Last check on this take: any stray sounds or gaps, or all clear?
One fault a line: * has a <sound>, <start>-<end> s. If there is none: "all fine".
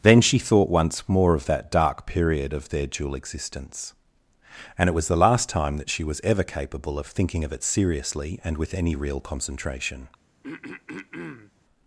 * has a throat clearing, 10.4-11.5 s